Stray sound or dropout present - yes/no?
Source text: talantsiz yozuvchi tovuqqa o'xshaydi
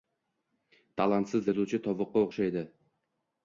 no